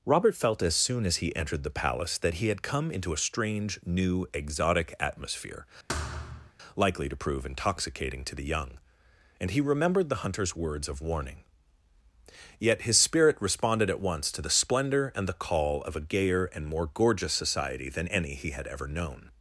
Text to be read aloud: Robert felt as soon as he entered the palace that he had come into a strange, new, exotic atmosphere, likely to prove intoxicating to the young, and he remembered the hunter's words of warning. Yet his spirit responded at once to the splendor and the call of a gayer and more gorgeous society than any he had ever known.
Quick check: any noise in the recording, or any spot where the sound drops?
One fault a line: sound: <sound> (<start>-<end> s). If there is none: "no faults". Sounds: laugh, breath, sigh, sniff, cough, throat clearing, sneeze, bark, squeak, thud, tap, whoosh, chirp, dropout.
sound: thud (5.9-6.5 s)